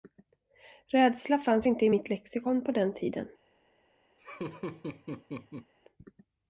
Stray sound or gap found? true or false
true